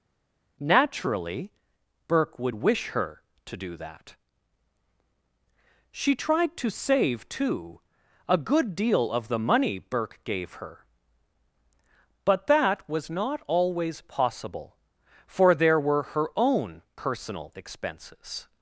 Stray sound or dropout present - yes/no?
no